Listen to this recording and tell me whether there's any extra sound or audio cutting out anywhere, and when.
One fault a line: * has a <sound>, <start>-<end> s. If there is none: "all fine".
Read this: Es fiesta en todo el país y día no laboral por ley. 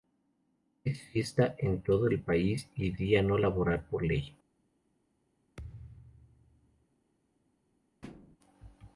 * has a thud, 5.6-6.9 s
* has a thud, 8.0-8.4 s